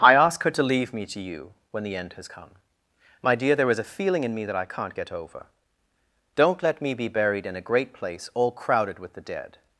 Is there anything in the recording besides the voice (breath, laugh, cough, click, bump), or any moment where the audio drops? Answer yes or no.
no